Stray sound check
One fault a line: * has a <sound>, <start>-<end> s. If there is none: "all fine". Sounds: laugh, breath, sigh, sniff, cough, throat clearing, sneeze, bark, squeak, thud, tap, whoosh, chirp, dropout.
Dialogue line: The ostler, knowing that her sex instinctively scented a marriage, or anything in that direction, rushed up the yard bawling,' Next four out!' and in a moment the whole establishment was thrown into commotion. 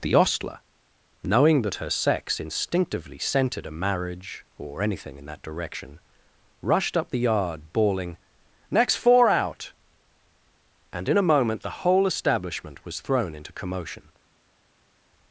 all fine